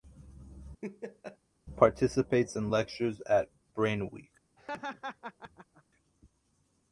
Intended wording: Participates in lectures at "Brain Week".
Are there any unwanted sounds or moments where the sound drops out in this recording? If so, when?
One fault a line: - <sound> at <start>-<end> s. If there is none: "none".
- laugh at 0.8-1.4 s
- laugh at 4.6-5.8 s